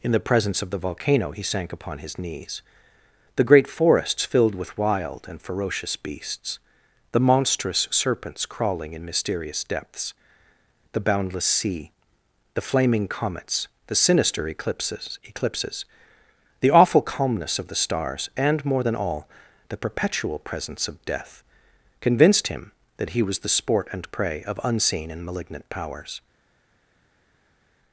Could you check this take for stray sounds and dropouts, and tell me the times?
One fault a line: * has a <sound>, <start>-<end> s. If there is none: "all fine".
all fine